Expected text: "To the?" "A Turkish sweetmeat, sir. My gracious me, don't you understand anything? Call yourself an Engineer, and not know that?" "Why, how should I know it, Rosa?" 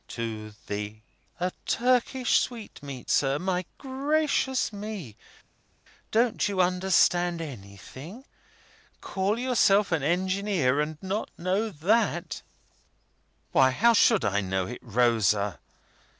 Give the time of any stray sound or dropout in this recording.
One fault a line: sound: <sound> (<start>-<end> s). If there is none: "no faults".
no faults